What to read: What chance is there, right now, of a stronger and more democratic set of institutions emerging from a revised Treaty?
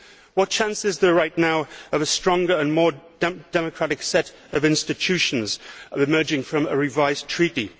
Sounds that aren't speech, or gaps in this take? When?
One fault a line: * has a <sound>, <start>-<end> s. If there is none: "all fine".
all fine